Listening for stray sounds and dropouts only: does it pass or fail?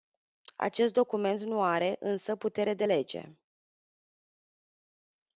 pass